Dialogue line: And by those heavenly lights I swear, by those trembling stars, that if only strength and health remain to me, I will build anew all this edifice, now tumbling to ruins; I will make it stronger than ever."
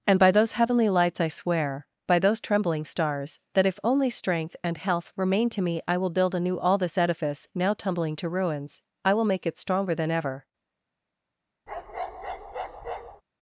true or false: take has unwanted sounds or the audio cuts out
true